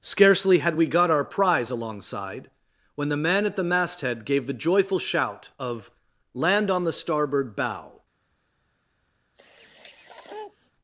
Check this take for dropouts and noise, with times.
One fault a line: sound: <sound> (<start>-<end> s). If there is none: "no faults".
sound: sniff (9.4-10.7 s)